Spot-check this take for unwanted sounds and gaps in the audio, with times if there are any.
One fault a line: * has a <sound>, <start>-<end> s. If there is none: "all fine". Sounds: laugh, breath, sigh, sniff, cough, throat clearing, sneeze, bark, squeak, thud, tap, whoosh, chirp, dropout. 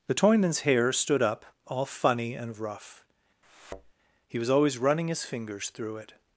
* has a thud, 3.4-3.9 s